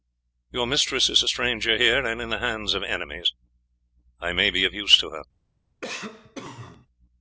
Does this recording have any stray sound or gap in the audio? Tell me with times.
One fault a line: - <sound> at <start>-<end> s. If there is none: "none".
- cough at 5.8-6.9 s